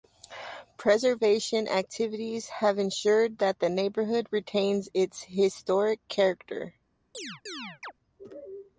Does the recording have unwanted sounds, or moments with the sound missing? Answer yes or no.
yes